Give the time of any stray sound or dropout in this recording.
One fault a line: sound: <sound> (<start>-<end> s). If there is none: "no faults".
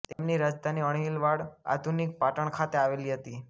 sound: dropout (0.1-0.2 s)